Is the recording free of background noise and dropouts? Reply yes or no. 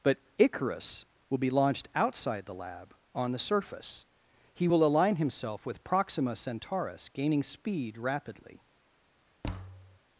no